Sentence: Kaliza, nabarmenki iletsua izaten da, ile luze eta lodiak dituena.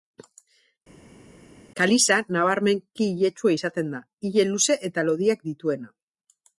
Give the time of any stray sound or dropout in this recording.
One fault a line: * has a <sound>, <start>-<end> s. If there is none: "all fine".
all fine